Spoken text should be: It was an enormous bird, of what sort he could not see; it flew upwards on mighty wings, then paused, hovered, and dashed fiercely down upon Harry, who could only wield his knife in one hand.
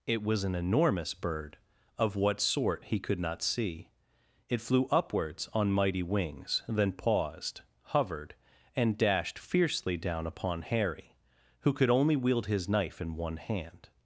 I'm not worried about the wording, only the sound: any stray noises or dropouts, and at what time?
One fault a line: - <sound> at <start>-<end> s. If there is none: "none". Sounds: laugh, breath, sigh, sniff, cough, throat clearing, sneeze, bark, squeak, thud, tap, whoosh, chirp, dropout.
none